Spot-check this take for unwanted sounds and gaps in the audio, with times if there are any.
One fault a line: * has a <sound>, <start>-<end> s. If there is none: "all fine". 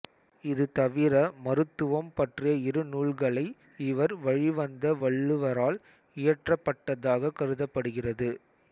all fine